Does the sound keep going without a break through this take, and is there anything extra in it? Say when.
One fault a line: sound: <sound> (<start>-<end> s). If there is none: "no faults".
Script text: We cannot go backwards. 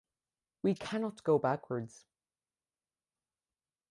no faults